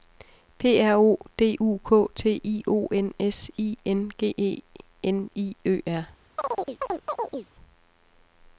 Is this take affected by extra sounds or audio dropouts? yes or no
yes